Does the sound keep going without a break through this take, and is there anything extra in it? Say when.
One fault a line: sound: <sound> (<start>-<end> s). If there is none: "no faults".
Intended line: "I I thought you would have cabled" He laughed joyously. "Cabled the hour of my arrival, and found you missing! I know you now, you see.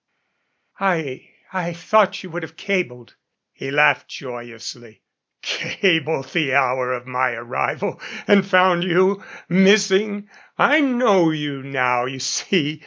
no faults